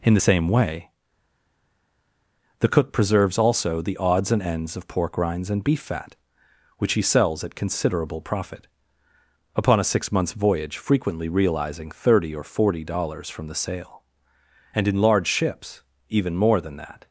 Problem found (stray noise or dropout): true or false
false